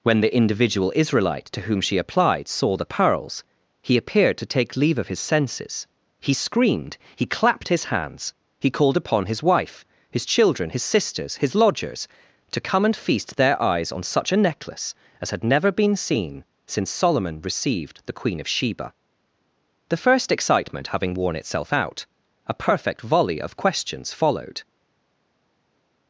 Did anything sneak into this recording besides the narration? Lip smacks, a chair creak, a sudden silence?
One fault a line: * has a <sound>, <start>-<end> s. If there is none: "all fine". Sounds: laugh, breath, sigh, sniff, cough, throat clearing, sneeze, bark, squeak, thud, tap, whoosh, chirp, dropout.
all fine